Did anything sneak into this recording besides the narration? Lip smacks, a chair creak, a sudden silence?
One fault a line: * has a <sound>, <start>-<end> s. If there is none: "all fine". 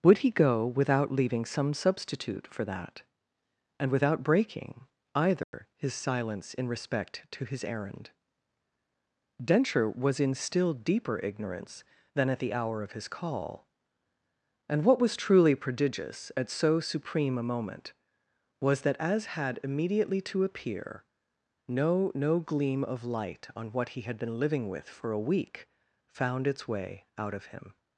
* has a dropout, 5.4-5.5 s